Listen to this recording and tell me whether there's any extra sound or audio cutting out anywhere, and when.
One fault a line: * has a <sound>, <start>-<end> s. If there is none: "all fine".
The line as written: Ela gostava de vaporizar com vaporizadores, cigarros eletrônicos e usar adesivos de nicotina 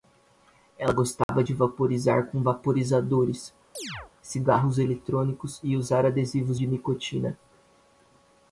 * has a dropout, 1.2-1.3 s
* has a chirp, 3.7-4.1 s